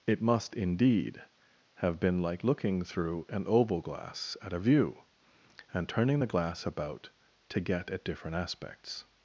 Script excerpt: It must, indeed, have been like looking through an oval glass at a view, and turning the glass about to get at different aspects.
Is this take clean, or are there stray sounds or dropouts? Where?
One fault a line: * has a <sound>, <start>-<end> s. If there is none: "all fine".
all fine